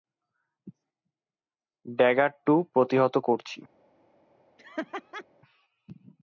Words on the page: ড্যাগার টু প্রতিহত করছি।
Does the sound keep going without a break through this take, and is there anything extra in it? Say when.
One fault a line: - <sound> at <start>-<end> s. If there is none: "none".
- laugh at 4.6-5.2 s